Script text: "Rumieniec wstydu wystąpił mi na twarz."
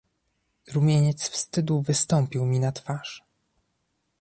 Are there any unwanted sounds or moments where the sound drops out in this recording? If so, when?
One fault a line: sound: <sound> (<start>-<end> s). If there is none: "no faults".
no faults